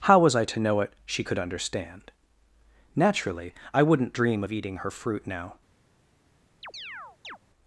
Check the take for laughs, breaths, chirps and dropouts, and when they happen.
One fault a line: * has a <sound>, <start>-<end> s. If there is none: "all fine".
* has a chirp, 6.6-7.4 s